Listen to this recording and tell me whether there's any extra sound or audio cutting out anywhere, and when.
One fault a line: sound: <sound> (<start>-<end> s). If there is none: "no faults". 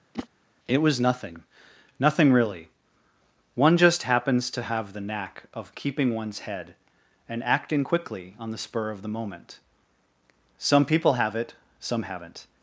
sound: whoosh (0.1-0.3 s)